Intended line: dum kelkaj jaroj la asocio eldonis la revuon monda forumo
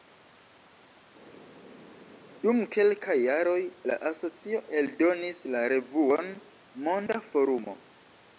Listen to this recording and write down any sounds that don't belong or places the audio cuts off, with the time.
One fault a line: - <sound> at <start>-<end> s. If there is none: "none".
none